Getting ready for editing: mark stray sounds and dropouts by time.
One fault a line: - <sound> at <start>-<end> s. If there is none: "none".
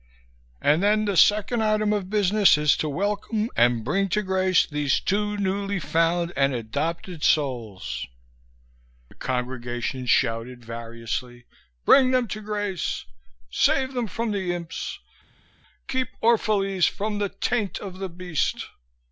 none